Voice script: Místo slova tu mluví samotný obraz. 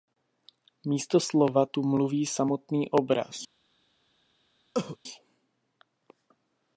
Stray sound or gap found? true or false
true